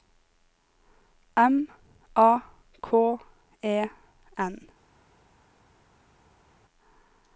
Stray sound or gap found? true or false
false